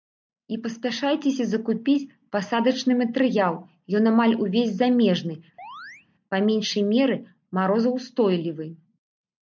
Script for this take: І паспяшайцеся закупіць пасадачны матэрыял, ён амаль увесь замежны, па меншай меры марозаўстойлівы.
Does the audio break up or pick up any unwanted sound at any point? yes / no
yes